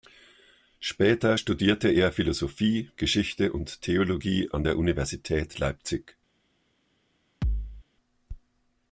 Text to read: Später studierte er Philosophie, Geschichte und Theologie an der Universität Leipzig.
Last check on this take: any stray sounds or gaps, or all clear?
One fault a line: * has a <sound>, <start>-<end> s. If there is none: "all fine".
* has a thud, 7.4-7.8 s